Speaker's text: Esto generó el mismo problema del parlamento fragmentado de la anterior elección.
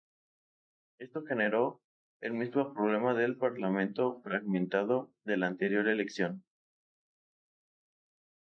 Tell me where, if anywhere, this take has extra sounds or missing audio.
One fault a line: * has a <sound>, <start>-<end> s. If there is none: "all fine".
all fine